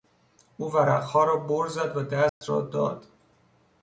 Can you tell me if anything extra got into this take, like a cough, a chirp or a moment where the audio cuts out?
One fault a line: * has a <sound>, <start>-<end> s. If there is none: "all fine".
* has a dropout, 2.3-2.4 s